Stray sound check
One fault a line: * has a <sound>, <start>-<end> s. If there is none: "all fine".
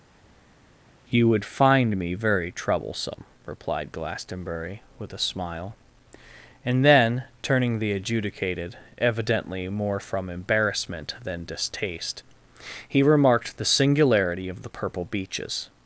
all fine